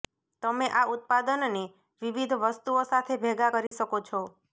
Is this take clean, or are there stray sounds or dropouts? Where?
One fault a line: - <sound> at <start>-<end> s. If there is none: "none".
- dropout at 3.7-3.7 s